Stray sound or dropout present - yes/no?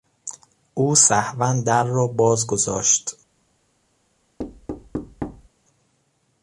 yes